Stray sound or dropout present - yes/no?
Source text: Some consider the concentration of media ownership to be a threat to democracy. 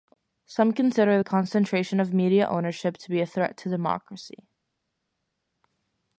no